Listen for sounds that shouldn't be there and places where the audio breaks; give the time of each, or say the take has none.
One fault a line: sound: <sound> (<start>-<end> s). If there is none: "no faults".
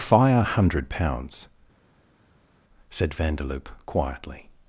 no faults